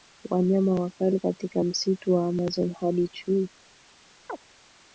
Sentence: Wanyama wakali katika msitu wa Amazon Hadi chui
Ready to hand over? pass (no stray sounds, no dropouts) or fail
fail